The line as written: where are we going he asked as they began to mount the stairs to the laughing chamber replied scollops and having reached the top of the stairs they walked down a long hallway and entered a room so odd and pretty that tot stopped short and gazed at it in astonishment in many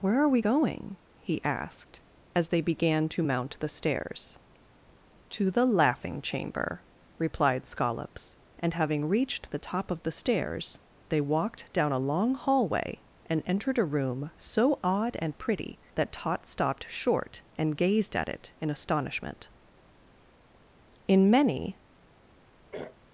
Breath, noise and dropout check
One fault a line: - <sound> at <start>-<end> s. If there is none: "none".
- throat clearing at 22.7-23.0 s